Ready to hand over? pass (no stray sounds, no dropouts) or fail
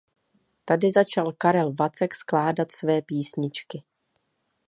pass